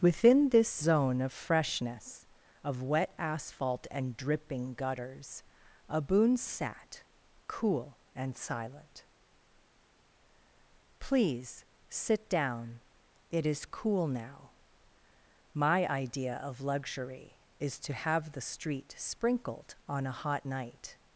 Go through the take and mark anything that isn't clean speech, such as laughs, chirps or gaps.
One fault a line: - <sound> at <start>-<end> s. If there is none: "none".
none